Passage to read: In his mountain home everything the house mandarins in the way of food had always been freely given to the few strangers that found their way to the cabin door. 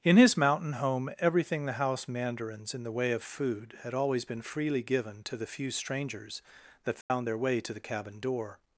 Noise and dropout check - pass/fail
fail